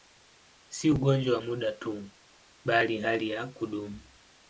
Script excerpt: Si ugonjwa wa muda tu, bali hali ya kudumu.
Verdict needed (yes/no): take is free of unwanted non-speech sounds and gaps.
yes